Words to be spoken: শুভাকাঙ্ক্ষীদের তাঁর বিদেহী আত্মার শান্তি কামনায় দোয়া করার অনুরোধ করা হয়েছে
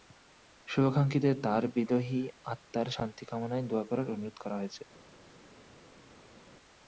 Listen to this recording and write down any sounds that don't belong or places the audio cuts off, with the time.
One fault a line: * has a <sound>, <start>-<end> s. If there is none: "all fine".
all fine